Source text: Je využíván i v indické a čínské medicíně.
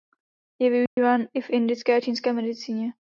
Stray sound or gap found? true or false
true